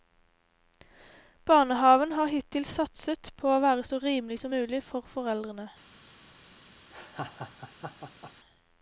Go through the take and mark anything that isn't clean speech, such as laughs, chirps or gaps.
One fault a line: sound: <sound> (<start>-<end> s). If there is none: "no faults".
sound: laugh (6.9-8.3 s)